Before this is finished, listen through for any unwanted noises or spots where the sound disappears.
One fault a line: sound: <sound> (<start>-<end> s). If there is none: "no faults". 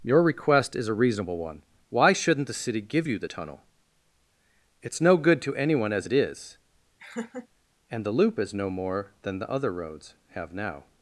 sound: laugh (7.0-7.5 s)